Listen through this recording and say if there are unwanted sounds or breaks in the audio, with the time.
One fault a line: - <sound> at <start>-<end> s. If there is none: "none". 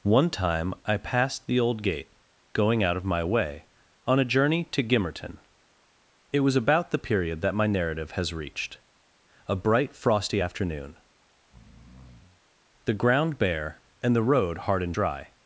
- breath at 11.4-12.4 s